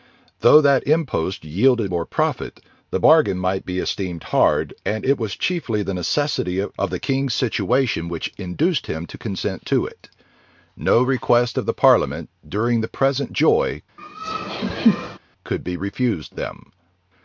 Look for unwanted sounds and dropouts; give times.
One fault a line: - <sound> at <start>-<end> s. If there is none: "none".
- laugh at 14.0-15.2 s